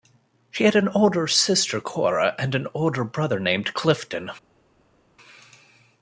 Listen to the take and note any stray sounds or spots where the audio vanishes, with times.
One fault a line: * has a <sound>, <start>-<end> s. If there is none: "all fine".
all fine